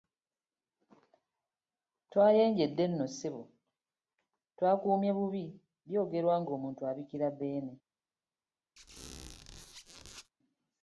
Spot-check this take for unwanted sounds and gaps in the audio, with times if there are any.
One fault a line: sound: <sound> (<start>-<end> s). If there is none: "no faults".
sound: squeak (8.8-10.3 s)